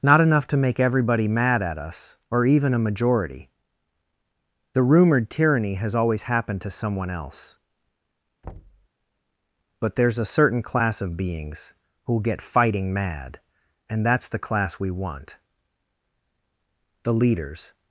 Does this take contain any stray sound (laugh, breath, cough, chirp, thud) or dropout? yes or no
yes